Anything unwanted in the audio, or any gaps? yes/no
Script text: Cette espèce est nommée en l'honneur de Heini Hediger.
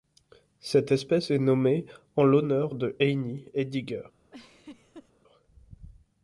yes